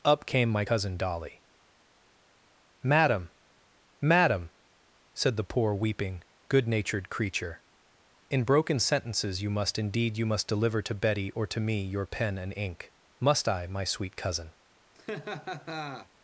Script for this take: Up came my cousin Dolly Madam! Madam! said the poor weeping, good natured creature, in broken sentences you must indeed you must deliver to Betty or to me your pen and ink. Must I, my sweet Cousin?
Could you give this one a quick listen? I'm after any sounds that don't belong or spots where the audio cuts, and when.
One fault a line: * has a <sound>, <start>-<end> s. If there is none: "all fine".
* has a laugh, 14.9-16.1 s